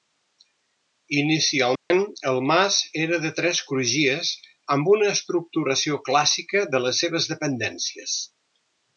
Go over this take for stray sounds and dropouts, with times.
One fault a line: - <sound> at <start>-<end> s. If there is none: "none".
- dropout at 1.8-1.9 s